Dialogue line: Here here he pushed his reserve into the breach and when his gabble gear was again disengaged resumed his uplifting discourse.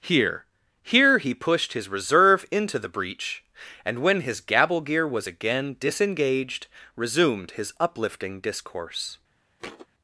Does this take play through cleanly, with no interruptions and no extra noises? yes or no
no